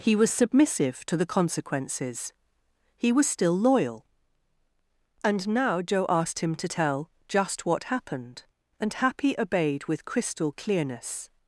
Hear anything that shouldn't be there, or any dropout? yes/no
no